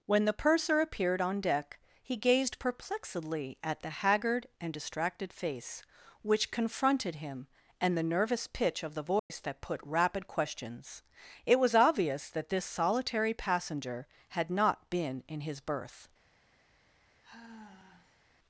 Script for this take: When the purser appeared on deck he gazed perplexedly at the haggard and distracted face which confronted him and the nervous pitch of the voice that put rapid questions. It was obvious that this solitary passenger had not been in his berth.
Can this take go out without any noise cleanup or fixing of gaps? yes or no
no